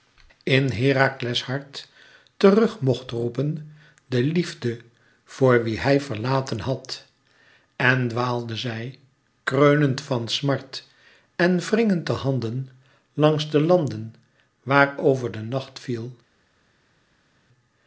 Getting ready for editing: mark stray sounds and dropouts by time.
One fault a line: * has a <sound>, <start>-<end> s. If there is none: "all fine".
all fine